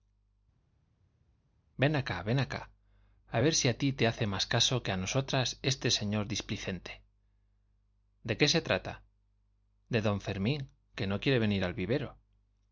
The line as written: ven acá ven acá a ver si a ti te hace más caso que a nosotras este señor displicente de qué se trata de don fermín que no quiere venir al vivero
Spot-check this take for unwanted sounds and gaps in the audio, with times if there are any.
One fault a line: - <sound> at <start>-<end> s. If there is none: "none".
none